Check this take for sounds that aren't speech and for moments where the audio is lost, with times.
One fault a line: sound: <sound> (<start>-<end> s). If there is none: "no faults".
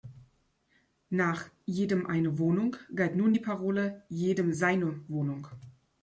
no faults